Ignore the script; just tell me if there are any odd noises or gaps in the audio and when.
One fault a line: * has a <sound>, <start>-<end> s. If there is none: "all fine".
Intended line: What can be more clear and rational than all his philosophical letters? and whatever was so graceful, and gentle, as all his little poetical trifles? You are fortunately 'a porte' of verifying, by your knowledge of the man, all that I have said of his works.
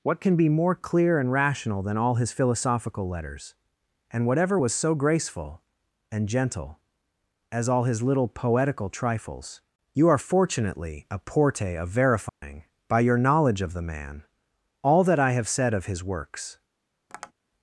* has a dropout, 12.3-12.4 s
* has a tap, 17.1-17.3 s